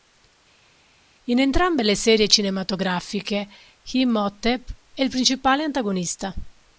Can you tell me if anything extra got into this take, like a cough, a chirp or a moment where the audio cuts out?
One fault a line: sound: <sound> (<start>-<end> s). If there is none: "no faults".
no faults